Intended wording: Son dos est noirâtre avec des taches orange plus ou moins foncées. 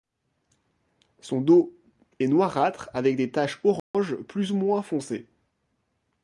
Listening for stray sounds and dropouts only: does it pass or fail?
fail